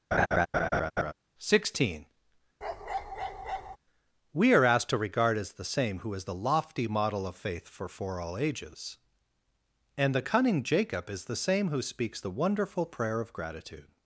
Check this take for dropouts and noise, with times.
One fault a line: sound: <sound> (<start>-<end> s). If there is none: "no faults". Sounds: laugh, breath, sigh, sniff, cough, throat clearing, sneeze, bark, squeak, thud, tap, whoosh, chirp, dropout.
sound: laugh (0.1-1.1 s)
sound: bark (2.6-3.8 s)